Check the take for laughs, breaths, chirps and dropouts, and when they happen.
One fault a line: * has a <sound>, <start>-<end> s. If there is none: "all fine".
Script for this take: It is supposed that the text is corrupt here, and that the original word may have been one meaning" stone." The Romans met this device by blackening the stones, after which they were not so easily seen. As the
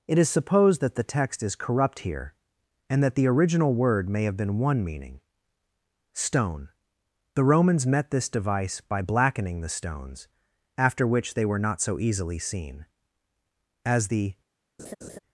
* has a laugh, 14.8-15.2 s